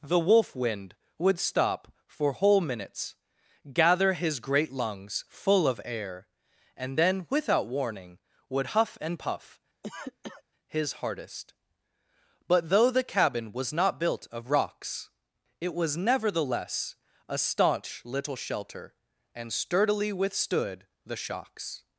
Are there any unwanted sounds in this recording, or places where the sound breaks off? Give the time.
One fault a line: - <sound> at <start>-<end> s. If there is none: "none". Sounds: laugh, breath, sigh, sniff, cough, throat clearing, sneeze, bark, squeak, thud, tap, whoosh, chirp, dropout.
- cough at 9.8-10.4 s